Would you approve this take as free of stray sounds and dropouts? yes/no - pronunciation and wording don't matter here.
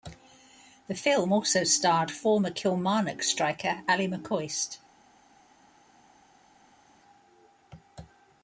yes